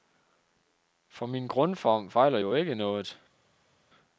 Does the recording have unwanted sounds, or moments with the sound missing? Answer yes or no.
no